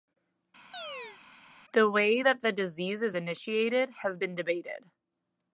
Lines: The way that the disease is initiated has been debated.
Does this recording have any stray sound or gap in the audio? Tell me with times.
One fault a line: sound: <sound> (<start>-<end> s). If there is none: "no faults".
sound: chirp (0.7-1.2 s)